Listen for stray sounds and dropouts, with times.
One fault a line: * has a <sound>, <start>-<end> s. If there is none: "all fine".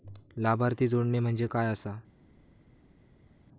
all fine